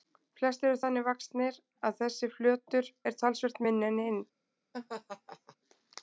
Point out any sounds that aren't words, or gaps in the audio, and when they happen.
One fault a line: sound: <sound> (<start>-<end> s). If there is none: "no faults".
sound: laugh (4.7-5.6 s)